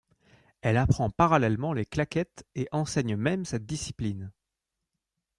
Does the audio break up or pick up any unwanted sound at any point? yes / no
no